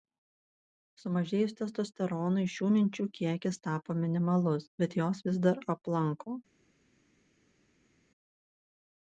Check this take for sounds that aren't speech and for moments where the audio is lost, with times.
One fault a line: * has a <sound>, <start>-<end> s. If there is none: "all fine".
all fine